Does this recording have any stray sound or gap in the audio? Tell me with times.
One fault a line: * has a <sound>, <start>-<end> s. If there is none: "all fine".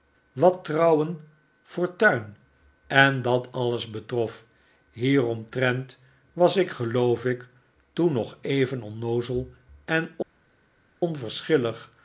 all fine